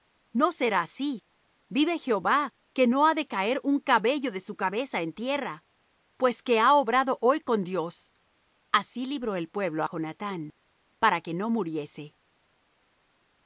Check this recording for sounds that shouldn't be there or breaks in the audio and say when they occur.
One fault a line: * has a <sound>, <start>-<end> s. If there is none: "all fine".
all fine